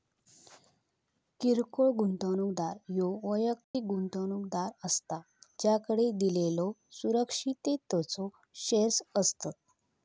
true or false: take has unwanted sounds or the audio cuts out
true